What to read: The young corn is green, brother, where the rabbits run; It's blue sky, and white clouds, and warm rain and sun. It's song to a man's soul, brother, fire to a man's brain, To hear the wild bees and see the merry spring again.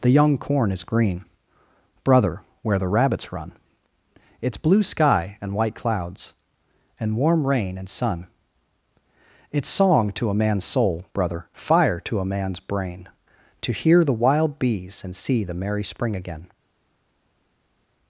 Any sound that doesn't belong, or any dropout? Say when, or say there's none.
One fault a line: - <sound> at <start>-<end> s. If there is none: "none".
none